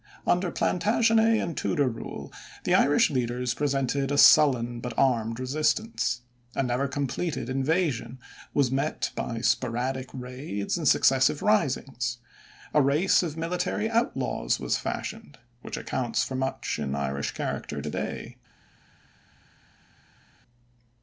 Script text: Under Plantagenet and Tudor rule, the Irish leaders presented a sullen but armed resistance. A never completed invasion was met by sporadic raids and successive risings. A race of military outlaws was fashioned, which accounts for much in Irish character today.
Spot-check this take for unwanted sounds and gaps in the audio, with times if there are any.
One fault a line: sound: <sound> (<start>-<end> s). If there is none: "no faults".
no faults